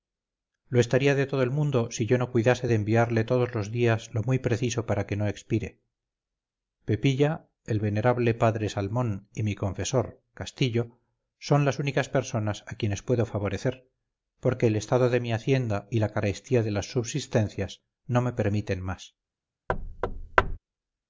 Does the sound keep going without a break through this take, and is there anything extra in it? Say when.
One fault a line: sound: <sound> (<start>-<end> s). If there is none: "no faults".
sound: thud (19.7-20.6 s)